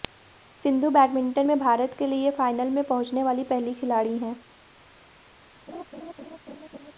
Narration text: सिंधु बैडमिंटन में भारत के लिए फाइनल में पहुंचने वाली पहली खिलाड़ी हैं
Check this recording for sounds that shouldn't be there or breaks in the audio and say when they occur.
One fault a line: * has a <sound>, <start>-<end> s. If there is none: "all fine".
* has a laugh, 5.7-6.9 s